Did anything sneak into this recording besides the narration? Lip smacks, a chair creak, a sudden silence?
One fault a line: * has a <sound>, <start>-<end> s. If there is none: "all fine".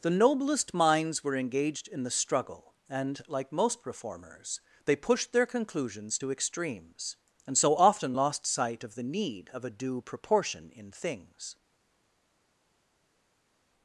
all fine